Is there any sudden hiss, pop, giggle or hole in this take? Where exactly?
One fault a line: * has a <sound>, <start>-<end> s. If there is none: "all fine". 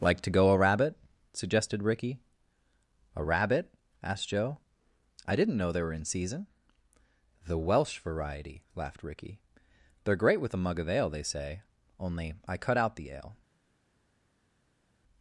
all fine